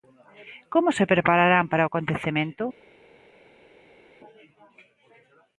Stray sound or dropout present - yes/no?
no